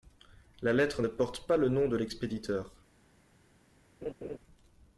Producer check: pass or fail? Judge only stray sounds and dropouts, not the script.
fail